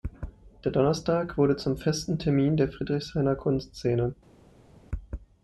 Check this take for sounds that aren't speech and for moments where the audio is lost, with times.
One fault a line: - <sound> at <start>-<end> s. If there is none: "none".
none